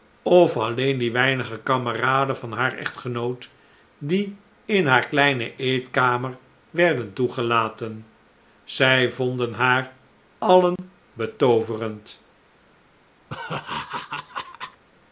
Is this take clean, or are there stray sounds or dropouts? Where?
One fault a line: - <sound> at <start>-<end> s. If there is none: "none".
- dropout at 10.8-10.8 s
- laugh at 13.3-14.8 s